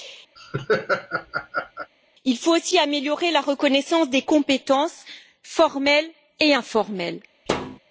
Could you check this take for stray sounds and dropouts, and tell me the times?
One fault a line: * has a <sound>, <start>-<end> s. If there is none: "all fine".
* has a laugh, 0.4-1.9 s
* has a thud, 7.5-7.8 s